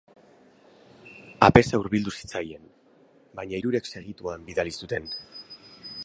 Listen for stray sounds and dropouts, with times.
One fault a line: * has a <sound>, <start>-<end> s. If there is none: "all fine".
all fine